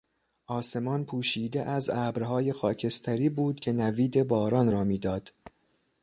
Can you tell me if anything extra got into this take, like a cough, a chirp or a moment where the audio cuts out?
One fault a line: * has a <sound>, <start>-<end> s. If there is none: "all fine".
all fine